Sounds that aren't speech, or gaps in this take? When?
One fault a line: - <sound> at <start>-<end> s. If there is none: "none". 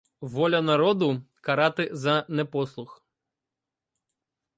none